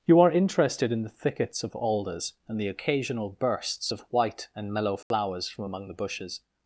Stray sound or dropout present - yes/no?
yes